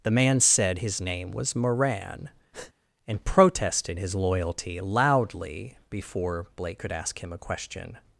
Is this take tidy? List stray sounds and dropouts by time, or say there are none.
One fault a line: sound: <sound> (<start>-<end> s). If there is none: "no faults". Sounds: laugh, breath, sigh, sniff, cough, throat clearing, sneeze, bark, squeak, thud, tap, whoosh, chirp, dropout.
sound: breath (2.5-2.7 s)